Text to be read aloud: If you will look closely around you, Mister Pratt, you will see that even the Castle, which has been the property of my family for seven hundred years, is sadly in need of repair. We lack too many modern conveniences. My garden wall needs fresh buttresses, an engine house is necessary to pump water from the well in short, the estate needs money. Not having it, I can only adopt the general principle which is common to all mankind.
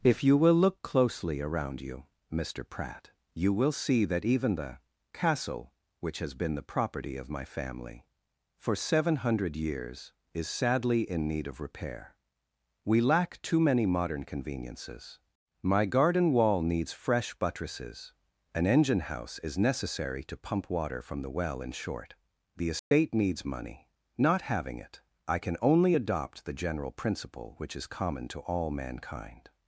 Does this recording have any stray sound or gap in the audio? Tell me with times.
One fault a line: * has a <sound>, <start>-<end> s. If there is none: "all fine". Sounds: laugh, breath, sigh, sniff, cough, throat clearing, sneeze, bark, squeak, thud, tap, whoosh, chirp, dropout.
* has a dropout, 22.8-22.9 s